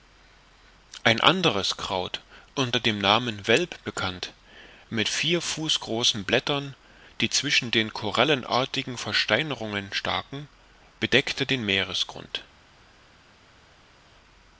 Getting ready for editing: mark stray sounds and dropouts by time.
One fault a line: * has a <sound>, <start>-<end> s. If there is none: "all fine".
all fine